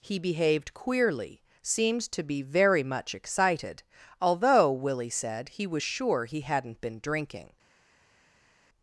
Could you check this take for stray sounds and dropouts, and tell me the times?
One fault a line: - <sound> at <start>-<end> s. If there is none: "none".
none